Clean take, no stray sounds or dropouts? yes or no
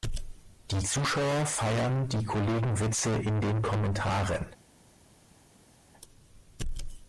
yes